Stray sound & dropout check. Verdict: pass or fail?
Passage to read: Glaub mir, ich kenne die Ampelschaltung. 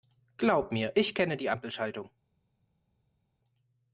pass